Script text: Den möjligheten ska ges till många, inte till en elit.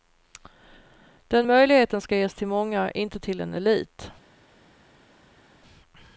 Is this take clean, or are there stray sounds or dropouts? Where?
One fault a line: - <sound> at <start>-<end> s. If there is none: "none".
none